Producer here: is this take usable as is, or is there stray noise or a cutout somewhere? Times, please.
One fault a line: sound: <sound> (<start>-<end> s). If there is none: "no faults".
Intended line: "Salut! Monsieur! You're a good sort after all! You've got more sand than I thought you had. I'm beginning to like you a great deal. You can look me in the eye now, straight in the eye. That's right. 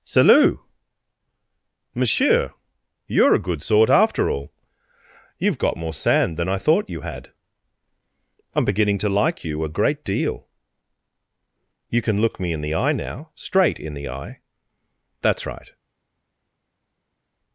no faults